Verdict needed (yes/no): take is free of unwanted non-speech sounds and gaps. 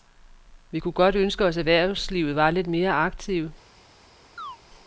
no